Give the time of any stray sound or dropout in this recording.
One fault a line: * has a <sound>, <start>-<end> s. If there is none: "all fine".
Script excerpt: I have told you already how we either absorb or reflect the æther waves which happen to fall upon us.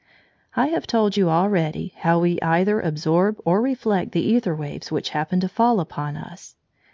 all fine